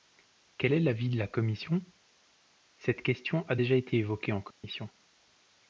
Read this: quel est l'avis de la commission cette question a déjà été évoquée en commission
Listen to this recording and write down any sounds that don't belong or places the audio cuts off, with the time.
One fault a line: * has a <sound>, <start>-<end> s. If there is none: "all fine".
* has a dropout, 4.5-4.6 s